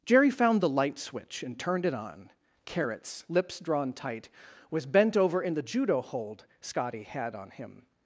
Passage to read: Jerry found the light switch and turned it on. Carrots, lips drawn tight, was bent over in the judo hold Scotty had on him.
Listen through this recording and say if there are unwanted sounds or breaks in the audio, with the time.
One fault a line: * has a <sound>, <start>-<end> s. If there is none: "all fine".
all fine